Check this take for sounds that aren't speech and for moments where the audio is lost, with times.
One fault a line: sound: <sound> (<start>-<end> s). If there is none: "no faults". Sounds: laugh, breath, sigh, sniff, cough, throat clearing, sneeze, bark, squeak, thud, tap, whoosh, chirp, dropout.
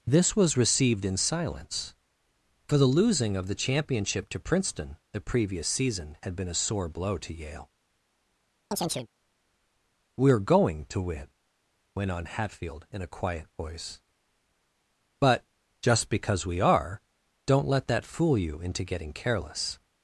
sound: chirp (8.7-9.1 s)